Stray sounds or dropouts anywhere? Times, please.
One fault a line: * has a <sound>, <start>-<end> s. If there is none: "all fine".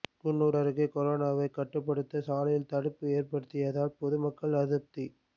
all fine